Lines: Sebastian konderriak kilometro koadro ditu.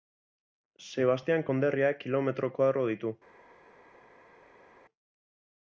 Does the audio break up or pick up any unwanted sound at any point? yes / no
no